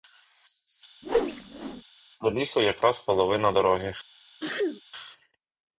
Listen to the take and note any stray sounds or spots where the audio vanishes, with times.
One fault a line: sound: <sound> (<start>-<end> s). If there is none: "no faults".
sound: whoosh (1.0-1.8 s)
sound: sneeze (4.4-4.8 s)